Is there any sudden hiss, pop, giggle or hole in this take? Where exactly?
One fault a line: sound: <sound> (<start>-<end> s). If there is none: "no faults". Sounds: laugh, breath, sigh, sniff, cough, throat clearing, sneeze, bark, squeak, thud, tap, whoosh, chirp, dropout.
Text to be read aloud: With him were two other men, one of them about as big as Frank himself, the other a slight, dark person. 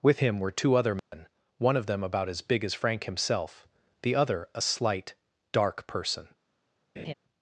sound: dropout (1.0-1.1 s)
sound: laugh (7.0-7.1 s)